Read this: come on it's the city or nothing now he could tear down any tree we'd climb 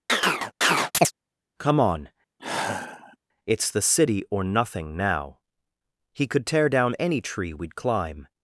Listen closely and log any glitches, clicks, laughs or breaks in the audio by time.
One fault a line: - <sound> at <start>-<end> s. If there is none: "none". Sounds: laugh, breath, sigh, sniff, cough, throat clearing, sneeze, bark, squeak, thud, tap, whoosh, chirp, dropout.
- chirp at 0.1-1.1 s
- sigh at 2.4-3.2 s